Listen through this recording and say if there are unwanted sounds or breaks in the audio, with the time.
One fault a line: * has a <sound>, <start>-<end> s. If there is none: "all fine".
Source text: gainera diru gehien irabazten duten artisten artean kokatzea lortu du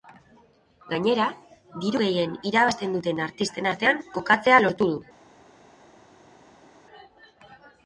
all fine